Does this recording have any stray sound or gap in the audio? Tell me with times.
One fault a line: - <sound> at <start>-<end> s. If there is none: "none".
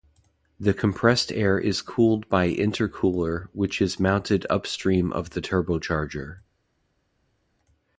none